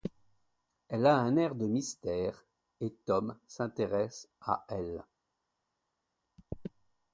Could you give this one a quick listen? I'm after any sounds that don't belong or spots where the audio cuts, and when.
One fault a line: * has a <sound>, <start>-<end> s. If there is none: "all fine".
all fine